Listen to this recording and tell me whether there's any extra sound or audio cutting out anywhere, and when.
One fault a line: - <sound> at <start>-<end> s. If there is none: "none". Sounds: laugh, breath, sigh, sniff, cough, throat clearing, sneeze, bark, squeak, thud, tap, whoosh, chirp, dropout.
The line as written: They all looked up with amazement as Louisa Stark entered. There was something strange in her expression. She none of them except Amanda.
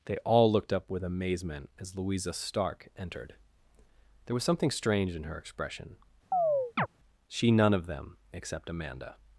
- chirp at 6.3-6.9 s